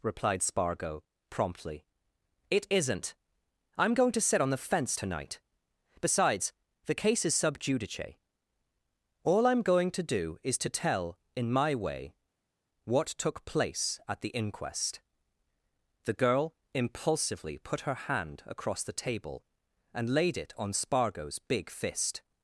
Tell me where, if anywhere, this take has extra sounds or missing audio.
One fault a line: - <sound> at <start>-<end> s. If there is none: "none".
none